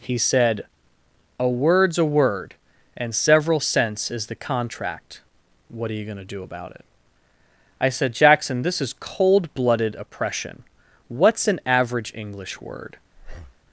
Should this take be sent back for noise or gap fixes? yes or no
yes